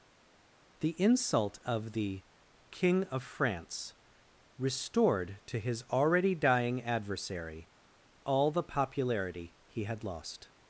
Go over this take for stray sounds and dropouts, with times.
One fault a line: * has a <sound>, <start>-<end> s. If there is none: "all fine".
all fine